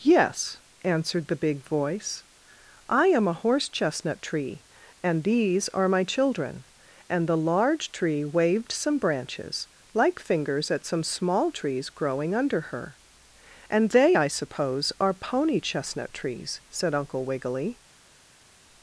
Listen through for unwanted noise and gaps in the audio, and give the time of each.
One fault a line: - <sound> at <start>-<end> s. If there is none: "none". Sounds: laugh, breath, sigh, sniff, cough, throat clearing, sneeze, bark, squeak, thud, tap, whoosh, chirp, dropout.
none